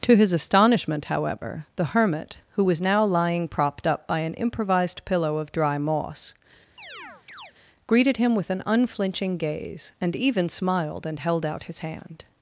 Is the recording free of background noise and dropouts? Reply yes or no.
no